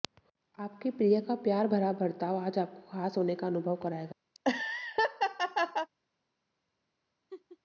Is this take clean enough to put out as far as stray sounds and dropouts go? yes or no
no